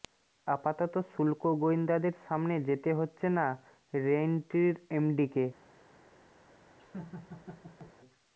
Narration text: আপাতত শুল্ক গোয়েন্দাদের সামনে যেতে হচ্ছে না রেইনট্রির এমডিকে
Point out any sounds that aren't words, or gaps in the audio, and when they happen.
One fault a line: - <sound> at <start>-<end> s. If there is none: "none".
- laugh at 6.8-7.9 s